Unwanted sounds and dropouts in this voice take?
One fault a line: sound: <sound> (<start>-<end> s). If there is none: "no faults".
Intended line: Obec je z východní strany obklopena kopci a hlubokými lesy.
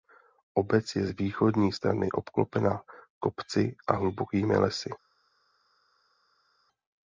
no faults